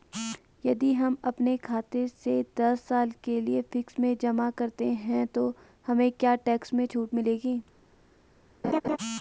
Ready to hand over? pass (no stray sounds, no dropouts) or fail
fail